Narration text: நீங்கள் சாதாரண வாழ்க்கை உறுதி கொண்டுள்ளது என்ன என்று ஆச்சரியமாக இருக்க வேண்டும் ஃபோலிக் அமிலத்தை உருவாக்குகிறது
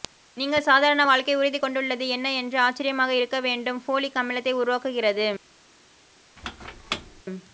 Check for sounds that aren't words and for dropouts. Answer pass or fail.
fail